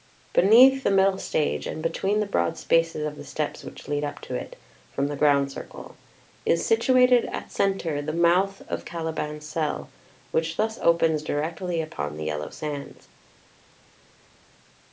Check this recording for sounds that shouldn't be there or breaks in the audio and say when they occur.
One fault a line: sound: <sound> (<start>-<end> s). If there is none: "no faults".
no faults